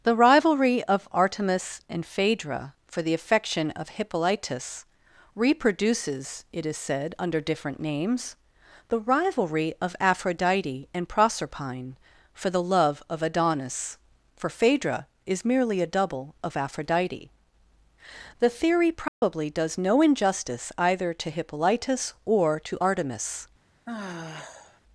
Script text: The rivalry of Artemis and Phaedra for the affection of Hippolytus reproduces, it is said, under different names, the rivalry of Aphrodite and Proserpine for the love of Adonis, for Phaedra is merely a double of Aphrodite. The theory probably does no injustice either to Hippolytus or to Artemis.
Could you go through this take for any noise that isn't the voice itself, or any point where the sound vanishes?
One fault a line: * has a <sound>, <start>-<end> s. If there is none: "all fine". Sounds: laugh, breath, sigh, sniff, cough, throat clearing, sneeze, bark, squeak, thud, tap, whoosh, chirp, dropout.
* has a dropout, 19.1-19.2 s
* has a sigh, 23.9-24.8 s